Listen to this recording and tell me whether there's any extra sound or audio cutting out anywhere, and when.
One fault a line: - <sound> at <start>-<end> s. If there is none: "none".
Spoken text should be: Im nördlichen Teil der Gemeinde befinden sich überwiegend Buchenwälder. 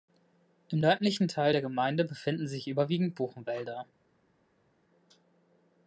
none